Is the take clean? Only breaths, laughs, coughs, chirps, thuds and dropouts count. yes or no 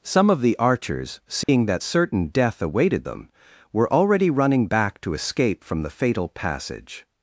no